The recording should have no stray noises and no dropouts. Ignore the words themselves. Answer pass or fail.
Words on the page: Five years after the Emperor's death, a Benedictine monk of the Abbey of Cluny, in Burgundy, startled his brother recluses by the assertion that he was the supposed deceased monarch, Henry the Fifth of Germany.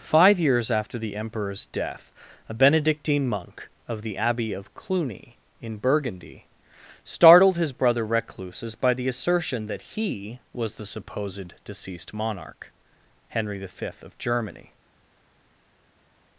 pass